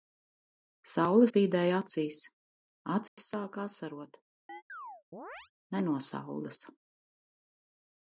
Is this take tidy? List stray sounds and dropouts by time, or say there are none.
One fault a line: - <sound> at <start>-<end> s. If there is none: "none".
- dropout at 3.1-3.2 s
- chirp at 4.5-5.5 s